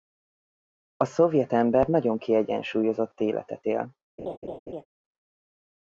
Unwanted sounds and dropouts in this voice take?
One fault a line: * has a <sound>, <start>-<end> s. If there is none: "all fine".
* has a laugh, 4.2-4.9 s